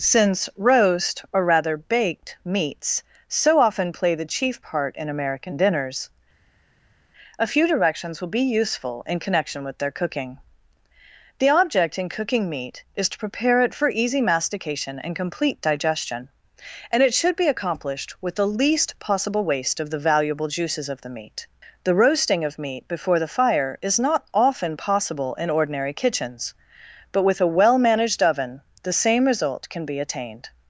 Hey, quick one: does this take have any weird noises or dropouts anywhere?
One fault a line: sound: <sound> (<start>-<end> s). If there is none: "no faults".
no faults